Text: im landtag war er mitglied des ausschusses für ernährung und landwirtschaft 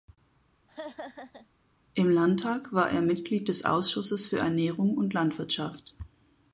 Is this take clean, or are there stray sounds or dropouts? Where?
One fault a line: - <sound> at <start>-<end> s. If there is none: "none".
- laugh at 0.7-1.5 s